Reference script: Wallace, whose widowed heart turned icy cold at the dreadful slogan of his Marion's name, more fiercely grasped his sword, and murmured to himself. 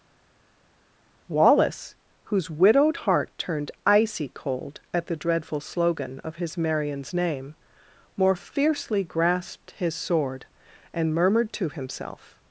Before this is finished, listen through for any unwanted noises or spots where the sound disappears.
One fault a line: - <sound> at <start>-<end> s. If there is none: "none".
none